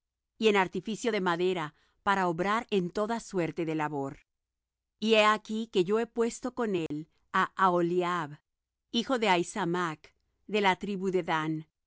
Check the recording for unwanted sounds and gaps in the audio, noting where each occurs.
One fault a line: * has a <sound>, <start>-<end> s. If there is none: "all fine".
* has a dropout, 6.9-6.9 s